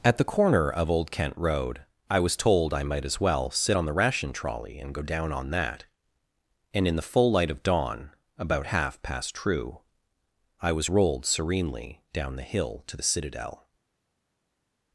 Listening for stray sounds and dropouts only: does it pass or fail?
pass